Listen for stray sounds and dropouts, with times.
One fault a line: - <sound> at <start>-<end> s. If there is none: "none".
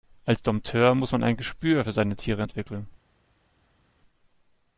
none